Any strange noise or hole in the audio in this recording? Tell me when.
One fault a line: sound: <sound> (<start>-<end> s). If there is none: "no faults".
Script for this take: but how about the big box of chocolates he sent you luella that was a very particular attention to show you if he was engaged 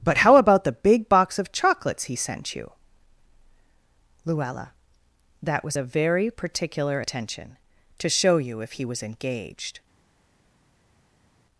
no faults